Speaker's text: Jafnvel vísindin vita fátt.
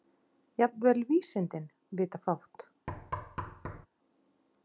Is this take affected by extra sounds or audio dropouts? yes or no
yes